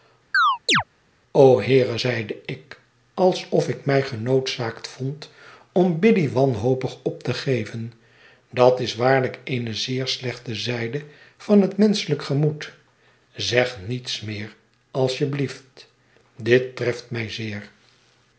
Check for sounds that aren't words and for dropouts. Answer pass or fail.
fail